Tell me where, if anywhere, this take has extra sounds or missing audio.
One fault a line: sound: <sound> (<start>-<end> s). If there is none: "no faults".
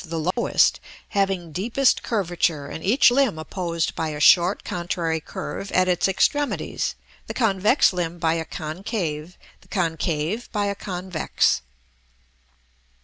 sound: dropout (0.3-0.4 s)